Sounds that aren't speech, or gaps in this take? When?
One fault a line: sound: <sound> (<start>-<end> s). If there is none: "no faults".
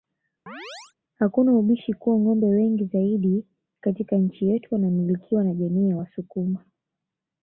sound: chirp (0.5-0.9 s)